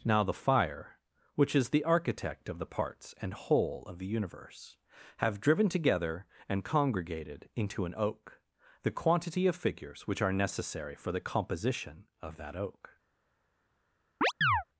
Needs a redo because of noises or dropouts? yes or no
yes